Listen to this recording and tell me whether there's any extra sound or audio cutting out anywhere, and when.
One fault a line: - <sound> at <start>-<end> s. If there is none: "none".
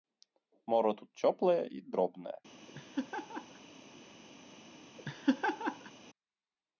- laugh at 2.7-3.6 s
- laugh at 5.0-5.9 s